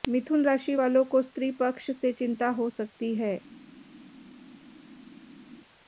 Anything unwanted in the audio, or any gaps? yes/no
no